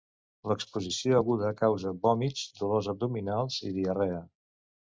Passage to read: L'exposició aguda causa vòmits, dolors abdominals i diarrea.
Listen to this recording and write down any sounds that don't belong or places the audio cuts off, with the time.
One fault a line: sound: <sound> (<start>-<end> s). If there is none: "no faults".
no faults